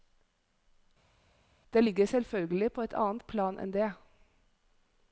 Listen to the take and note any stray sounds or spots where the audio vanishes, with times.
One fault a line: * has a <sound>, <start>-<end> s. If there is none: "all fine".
all fine